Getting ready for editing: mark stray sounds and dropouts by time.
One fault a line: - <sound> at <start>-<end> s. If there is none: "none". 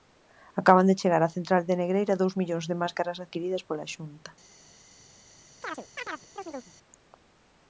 - chirp at 5.6-6.7 s